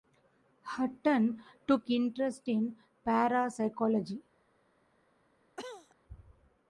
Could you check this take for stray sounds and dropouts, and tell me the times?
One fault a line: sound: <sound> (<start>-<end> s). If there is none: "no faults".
sound: cough (5.6-6.0 s)